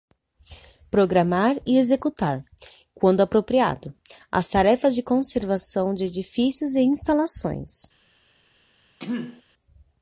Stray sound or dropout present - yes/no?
yes